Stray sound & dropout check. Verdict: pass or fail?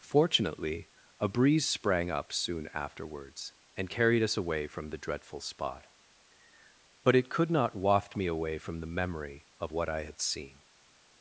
pass